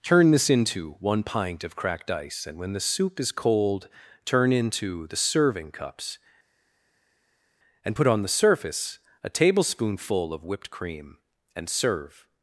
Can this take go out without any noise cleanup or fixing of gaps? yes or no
yes